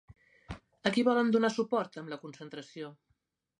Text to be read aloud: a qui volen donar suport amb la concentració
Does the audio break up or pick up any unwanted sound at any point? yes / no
no